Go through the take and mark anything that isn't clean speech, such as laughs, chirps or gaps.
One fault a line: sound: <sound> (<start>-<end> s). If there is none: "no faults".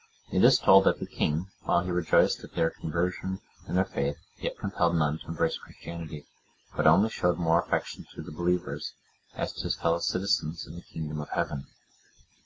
no faults